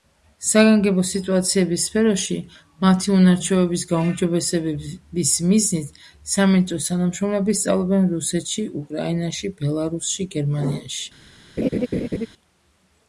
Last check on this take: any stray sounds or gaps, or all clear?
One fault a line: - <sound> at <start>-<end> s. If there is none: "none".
- laugh at 11.6-12.3 s